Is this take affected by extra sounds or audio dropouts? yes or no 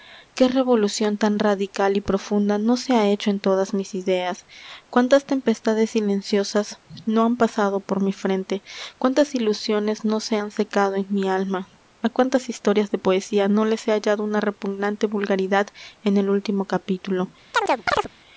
yes